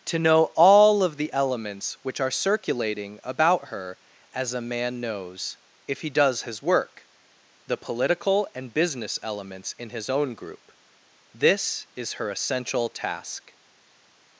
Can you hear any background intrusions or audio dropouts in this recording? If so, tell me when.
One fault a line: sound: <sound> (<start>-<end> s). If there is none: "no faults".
no faults